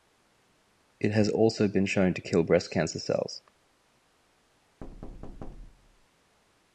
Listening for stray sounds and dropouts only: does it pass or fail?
fail